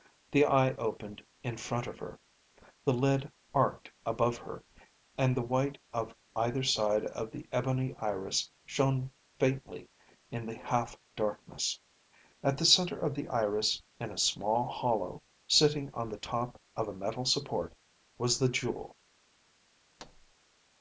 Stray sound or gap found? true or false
true